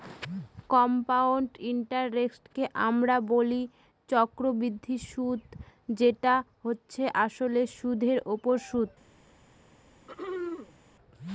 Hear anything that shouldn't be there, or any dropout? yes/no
yes